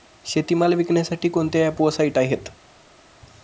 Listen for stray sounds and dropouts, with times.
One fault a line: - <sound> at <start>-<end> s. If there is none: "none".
none